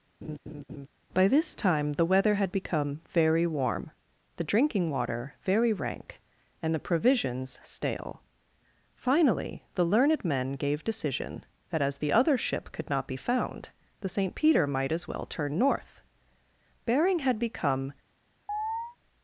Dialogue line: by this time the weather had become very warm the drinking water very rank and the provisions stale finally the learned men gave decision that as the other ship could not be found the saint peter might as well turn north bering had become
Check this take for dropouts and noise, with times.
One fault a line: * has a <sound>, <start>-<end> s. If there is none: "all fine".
* has a laugh, 0.2-0.9 s
* has a chirp, 18.5-19.0 s